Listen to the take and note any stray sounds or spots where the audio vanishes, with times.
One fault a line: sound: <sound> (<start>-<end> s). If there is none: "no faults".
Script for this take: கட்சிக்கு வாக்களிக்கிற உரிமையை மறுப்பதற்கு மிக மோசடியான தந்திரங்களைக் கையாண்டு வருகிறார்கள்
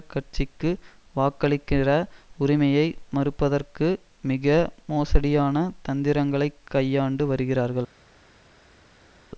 no faults